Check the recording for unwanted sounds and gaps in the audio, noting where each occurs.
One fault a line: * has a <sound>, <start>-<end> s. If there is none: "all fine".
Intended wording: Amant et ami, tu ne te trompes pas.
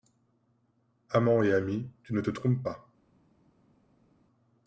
all fine